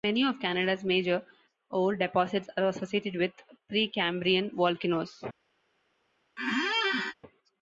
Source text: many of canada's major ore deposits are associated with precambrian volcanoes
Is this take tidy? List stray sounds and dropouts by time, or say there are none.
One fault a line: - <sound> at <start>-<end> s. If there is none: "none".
- squeak at 6.4-7.1 s